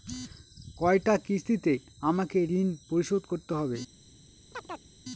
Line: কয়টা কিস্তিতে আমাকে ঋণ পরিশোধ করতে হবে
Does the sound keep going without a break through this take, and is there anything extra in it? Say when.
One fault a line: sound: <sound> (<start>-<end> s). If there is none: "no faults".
sound: chirp (4.5-4.9 s)